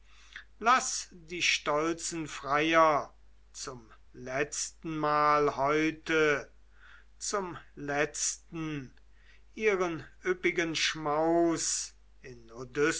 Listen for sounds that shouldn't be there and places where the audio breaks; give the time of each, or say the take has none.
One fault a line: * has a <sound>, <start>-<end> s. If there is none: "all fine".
all fine